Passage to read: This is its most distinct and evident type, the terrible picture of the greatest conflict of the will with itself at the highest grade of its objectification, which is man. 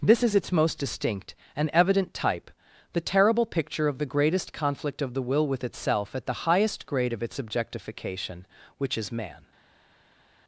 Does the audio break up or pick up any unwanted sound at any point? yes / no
no